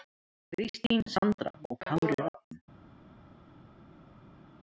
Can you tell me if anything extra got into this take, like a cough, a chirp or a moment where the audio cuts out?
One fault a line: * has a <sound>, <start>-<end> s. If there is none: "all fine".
all fine